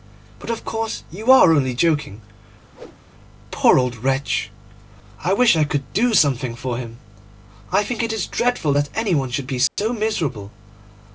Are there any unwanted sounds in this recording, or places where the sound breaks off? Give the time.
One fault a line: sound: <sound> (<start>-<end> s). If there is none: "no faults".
sound: whoosh (2.7-3.0 s)
sound: dropout (9.7-9.8 s)